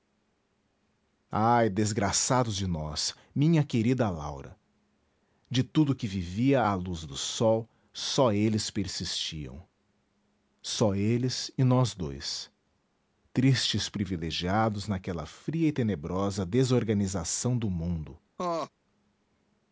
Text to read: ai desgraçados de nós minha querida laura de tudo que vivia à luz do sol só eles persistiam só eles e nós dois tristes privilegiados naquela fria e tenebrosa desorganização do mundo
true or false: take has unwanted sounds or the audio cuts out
true